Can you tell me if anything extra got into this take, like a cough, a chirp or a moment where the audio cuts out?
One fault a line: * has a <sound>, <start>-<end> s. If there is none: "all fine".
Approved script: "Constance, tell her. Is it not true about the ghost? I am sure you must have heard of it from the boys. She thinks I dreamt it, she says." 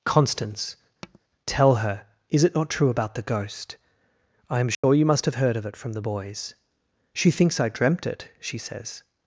* has a tap, 1.0-1.2 s
* has a dropout, 4.7-4.8 s